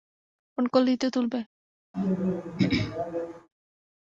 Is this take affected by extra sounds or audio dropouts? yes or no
yes